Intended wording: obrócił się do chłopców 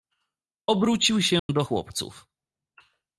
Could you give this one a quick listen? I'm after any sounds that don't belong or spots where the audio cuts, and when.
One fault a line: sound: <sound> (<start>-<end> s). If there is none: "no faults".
sound: dropout (1.4-1.5 s)